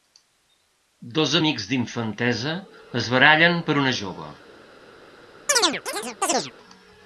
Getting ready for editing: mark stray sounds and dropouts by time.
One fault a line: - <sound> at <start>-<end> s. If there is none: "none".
- chirp at 5.5-6.5 s